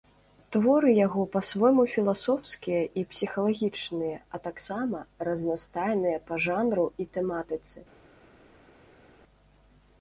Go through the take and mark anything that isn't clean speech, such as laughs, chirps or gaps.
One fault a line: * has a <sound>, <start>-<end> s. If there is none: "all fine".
all fine